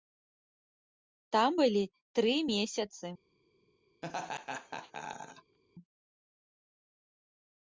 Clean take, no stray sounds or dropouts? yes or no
no